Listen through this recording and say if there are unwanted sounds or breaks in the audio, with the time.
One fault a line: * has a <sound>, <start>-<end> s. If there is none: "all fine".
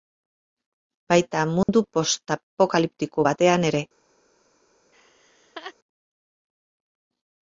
* has a dropout, 1.6-1.7 s
* has a laugh, 4.9-5.7 s